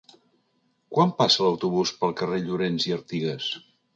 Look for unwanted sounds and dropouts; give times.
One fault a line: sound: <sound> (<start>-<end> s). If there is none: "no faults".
no faults